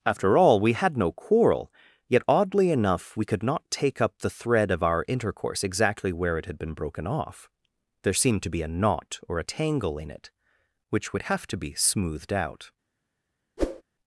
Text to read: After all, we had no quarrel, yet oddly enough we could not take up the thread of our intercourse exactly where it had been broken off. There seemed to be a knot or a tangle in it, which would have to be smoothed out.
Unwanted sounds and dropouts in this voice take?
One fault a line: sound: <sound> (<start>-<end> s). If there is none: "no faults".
sound: whoosh (13.6-13.8 s)